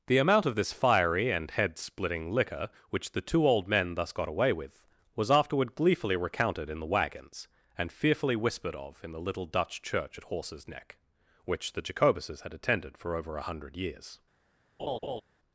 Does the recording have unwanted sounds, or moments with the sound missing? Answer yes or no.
yes